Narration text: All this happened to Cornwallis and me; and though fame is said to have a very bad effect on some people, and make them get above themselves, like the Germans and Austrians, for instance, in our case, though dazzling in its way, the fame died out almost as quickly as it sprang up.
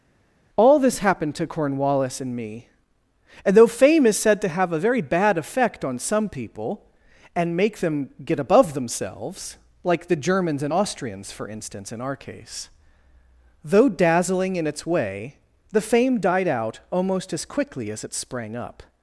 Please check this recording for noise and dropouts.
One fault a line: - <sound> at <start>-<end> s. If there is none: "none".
none